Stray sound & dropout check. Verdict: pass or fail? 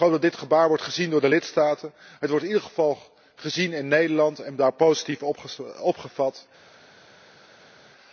pass